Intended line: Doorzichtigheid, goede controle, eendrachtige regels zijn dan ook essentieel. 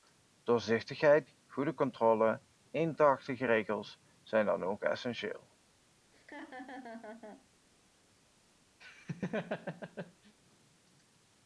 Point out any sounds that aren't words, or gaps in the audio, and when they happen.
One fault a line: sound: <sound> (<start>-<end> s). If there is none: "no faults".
sound: laugh (6.1-7.5 s)
sound: laugh (8.8-10.3 s)